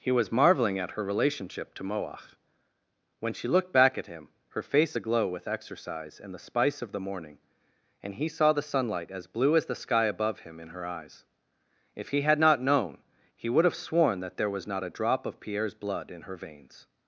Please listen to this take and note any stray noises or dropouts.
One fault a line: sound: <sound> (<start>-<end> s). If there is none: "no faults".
no faults